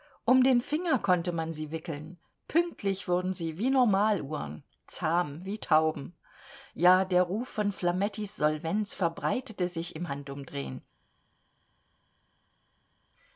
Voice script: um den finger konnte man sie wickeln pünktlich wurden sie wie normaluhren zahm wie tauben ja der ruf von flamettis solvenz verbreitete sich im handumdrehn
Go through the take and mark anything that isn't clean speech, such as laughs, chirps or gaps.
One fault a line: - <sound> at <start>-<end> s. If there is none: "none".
none